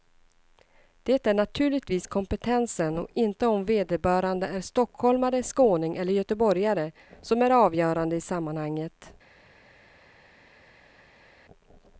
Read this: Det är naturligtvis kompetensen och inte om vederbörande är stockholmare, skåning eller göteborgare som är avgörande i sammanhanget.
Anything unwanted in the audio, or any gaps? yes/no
no